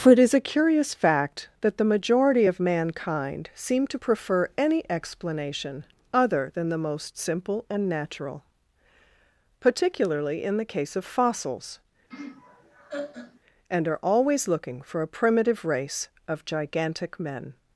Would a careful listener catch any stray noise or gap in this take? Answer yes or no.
yes